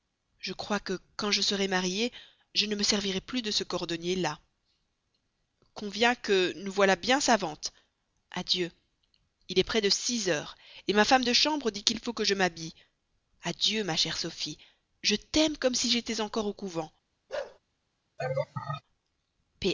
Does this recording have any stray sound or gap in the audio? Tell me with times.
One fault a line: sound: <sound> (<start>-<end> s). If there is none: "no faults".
sound: bark (17.3-17.6 s)
sound: laugh (18.2-18.8 s)